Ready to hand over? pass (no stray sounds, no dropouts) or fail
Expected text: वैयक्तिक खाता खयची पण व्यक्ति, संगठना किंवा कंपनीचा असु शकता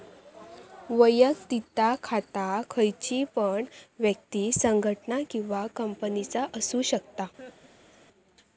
fail